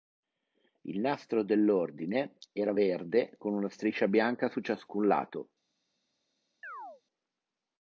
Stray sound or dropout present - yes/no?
yes